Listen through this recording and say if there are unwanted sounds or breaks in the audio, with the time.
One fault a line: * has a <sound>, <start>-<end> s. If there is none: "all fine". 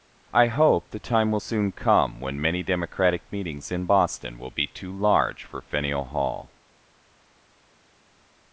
all fine